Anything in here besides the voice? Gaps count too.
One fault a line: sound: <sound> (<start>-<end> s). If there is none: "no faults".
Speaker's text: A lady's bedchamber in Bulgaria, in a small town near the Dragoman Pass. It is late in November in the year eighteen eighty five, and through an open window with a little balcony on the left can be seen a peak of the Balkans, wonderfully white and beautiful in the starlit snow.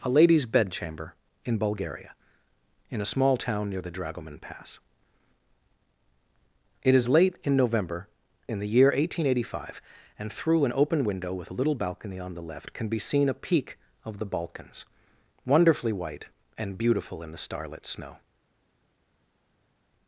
no faults